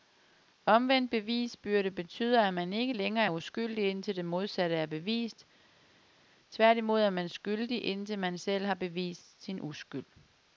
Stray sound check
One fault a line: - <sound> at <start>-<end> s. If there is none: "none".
none